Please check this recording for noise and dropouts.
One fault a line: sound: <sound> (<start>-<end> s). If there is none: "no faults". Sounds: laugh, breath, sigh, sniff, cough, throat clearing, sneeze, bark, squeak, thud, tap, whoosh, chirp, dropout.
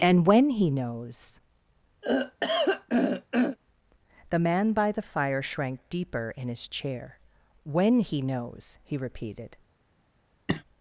sound: throat clearing (2.0-3.6 s)
sound: cough (10.5-10.6 s)